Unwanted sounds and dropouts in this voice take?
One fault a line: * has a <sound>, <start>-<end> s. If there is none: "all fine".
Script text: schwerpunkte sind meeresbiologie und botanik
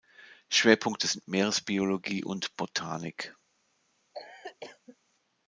* has a cough, 4.1-5.0 s